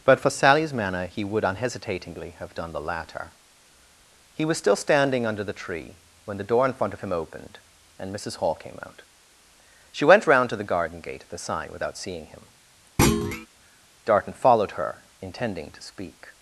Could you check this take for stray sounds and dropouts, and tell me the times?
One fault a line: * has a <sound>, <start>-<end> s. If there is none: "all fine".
* has a thud, 13.0-13.5 s